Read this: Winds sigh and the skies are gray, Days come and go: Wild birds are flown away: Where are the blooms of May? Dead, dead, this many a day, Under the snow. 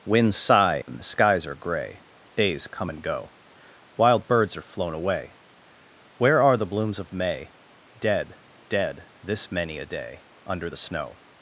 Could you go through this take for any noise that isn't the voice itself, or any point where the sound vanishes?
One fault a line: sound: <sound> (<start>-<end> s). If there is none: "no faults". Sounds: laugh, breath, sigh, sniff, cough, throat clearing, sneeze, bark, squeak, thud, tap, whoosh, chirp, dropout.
sound: dropout (0.8-0.9 s)